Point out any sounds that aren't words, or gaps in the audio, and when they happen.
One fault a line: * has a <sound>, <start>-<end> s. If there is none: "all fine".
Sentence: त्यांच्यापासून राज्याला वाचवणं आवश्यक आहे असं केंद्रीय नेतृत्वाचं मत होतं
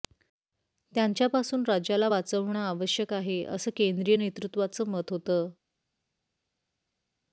all fine